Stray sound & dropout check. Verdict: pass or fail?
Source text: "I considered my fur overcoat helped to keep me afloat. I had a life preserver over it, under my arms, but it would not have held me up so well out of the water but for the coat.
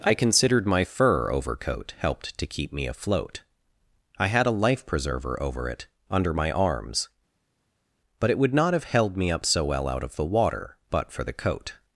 pass